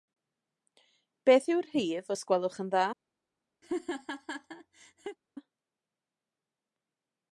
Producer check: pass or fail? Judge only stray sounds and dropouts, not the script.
fail